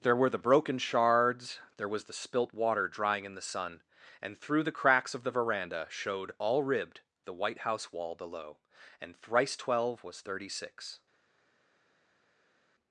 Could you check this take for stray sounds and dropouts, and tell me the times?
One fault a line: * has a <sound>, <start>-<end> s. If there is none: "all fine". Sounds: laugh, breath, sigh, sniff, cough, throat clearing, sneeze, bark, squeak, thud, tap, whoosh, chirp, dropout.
all fine